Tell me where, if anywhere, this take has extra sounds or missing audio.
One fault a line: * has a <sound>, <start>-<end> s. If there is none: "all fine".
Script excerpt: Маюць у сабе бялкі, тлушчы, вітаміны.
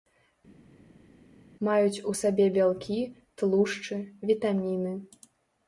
all fine